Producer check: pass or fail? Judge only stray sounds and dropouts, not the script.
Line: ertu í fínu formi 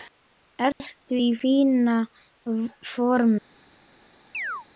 fail